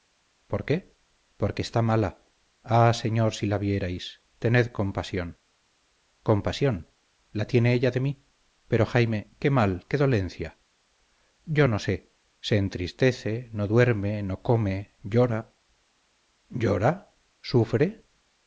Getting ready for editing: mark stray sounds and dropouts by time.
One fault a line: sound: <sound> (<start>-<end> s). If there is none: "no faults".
no faults